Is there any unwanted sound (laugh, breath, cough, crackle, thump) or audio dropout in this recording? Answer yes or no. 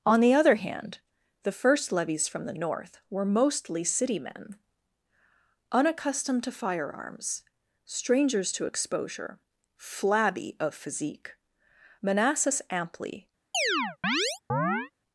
yes